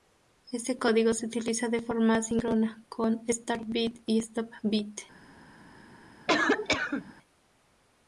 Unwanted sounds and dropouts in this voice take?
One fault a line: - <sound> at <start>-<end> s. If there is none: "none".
- cough at 6.3-7.1 s